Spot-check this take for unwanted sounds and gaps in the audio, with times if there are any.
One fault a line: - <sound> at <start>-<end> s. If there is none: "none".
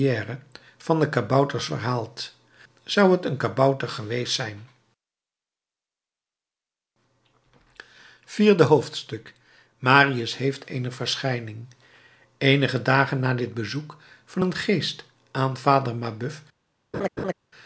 - laugh at 16.9-17.3 s